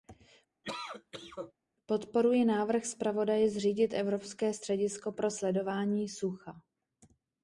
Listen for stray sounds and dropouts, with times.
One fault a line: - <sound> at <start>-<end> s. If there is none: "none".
- cough at 0.6-1.5 s